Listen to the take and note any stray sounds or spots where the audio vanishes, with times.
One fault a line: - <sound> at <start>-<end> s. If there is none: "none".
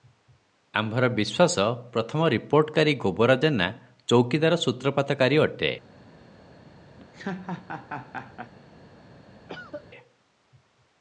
- laugh at 7.0-8.5 s
- cough at 9.5-9.8 s